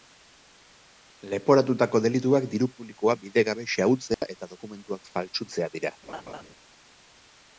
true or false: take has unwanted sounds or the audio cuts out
true